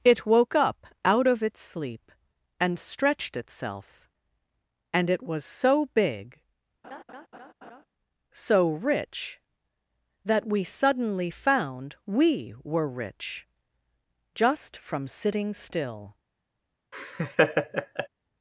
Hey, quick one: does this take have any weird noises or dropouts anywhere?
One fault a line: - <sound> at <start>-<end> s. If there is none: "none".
- laugh at 6.8-7.9 s
- laugh at 16.9-18.1 s